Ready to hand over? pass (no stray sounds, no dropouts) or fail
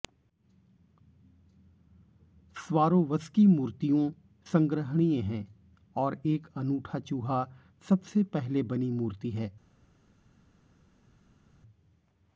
pass